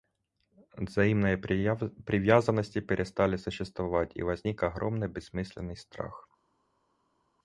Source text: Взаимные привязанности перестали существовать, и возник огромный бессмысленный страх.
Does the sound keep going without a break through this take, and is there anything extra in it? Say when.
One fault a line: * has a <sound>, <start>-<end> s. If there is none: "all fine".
all fine